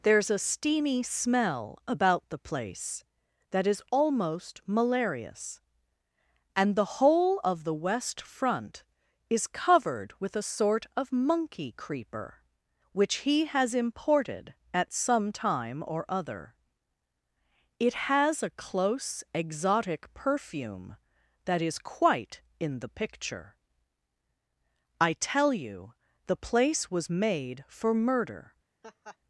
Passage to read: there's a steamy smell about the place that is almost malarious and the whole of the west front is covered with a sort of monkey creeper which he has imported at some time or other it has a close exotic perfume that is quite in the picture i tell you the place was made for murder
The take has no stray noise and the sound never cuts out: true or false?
false